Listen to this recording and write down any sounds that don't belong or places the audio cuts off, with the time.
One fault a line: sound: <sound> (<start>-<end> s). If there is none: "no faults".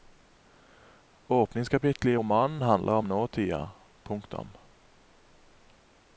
no faults